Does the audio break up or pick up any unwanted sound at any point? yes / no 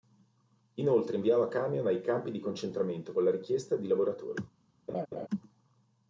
yes